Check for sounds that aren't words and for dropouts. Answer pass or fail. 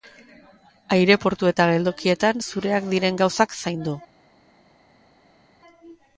pass